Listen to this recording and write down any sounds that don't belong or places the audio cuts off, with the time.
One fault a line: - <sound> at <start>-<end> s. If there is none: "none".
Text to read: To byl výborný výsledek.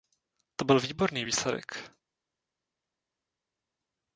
none